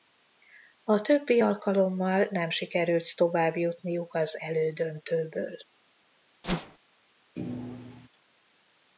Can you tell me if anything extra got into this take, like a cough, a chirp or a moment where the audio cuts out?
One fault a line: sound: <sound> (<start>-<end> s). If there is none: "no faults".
sound: whoosh (6.4-6.8 s)
sound: thud (7.4-8.1 s)